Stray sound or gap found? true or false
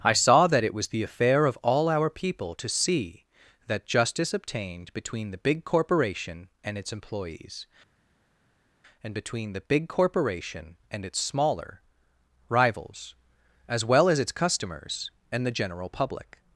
false